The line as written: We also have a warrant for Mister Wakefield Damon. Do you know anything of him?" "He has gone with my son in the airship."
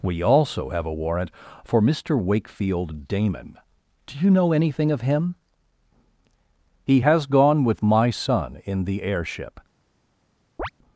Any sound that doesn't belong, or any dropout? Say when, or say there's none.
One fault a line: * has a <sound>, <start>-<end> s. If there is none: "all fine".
* has a chirp, 10.6-10.7 s